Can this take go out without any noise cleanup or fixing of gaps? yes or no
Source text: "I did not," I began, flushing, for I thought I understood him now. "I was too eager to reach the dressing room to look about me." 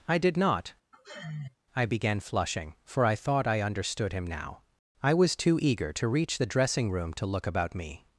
no